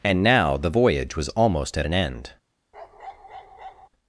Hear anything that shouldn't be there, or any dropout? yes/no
yes